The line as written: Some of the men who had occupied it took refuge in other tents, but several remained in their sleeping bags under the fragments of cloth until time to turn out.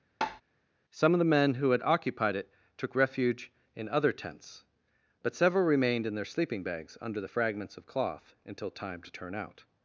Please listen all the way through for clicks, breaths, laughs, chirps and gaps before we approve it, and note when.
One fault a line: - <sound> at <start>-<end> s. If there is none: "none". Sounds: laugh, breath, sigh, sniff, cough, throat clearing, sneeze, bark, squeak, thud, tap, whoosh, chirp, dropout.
- tap at 0.2-0.4 s